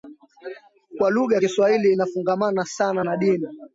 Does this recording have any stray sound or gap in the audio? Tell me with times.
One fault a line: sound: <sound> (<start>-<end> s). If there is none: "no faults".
no faults